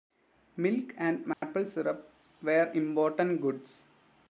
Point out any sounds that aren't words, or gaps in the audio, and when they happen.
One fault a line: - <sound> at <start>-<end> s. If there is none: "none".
- dropout at 1.3-1.4 s